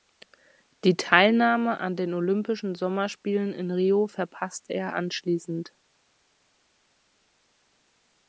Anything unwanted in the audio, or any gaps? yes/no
no